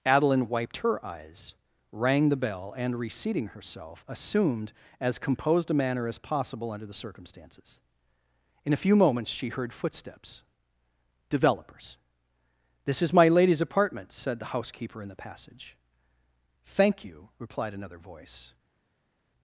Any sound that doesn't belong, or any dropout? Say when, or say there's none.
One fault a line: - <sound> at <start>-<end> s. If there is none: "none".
none